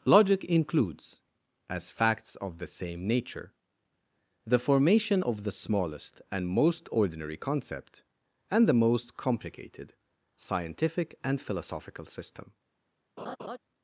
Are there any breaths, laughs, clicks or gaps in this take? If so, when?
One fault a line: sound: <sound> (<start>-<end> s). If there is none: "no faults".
sound: laugh (13.2-13.6 s)